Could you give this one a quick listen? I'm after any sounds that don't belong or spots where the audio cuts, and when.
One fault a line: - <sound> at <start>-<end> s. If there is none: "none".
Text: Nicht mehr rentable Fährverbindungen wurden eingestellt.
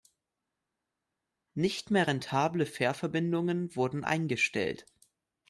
none